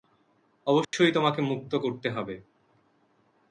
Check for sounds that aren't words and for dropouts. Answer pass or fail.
fail